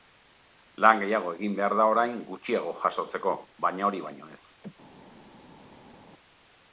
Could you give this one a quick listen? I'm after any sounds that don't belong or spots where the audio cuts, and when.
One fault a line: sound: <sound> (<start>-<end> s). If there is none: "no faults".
no faults